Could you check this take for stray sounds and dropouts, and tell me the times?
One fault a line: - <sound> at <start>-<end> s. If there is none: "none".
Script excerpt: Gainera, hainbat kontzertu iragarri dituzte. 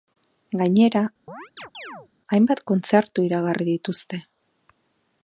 - chirp at 1.3-2.1 s